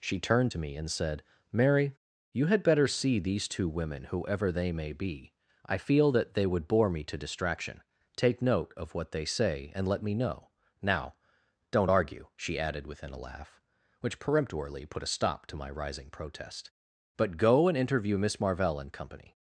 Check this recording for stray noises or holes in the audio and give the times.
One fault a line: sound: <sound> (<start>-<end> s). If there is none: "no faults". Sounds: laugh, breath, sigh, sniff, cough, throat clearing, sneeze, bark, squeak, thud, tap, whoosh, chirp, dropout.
no faults